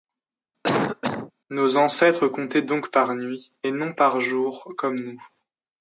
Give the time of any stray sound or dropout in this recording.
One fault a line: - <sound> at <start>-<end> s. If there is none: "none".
- cough at 0.6-1.3 s